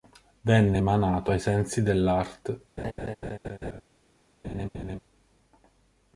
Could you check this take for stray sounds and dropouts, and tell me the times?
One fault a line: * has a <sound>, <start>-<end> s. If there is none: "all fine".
* has a laugh, 2.8-3.8 s
* has a laugh, 4.4-5.0 s